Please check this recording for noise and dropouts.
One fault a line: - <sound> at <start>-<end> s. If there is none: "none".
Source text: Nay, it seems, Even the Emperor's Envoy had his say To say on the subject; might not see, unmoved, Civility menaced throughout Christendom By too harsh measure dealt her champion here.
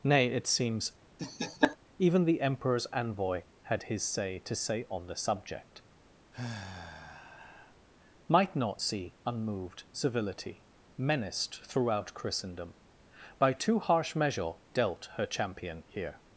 - laugh at 1.2-1.8 s
- sigh at 6.3-7.8 s